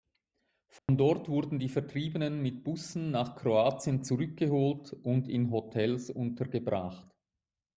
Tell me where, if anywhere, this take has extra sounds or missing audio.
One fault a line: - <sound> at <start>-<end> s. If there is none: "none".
- dropout at 0.8-0.9 s